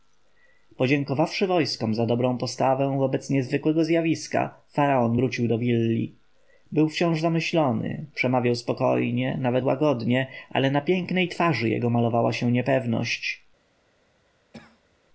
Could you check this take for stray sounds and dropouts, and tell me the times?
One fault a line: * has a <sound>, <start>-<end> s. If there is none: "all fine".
* has a cough, 14.5-15.0 s